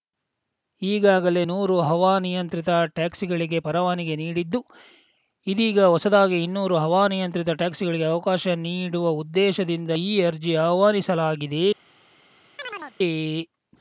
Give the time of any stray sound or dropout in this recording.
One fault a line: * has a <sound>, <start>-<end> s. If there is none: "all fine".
* has a chirp, 12.6-13.0 s